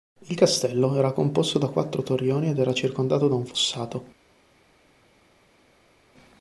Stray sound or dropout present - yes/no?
no